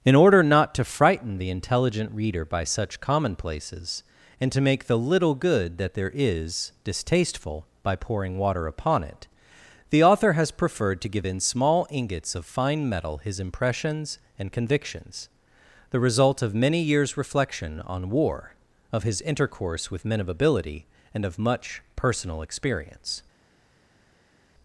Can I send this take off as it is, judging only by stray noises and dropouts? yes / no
yes